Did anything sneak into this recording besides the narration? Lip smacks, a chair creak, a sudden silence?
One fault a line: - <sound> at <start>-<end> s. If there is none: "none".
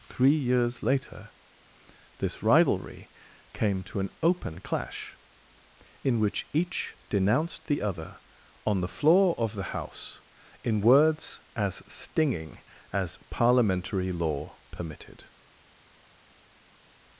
none